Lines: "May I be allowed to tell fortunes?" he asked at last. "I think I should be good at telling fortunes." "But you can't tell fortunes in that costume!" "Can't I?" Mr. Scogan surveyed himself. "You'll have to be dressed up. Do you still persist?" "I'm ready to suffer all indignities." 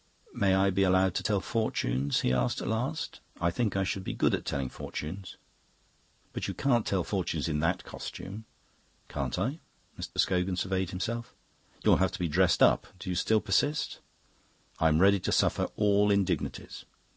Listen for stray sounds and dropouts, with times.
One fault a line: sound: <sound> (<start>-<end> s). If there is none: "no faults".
sound: dropout (10.1-10.2 s)